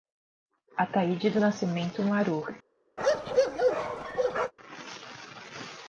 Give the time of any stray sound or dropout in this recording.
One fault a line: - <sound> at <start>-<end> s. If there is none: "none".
- bark at 3.0-4.5 s